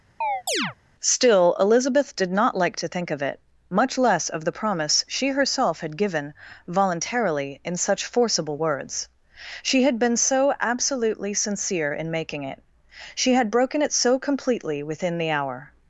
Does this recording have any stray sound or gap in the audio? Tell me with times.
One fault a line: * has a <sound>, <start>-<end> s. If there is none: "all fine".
* has a chirp, 0.2-0.7 s